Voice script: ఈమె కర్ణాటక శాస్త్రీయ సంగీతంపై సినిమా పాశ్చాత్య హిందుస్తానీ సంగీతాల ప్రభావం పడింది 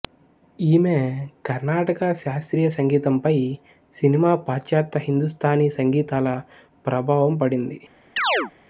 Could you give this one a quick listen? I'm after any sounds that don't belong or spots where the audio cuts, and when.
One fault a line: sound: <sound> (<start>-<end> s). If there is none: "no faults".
sound: chirp (8.2-8.5 s)